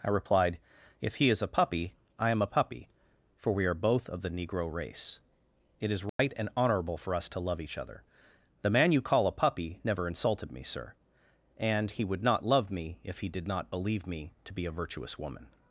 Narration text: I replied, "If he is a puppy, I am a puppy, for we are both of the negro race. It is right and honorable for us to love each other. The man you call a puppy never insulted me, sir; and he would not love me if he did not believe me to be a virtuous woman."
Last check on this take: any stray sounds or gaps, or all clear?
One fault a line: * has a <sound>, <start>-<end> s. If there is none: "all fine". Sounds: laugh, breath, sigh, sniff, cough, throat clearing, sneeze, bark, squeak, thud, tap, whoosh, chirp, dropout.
* has a dropout, 6.1-6.2 s